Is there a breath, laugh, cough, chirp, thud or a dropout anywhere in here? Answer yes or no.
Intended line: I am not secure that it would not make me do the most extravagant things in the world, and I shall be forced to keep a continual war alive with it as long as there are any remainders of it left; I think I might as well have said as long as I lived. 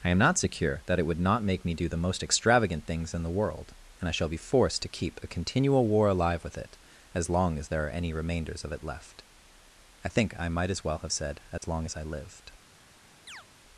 yes